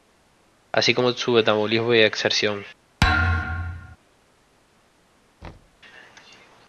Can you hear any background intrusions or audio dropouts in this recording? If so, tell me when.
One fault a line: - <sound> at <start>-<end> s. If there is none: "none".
- thud at 3.0-4.0 s
- thud at 5.4-5.8 s